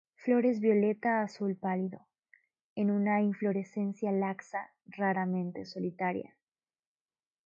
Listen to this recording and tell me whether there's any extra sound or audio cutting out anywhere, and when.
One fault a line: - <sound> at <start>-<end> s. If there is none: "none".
none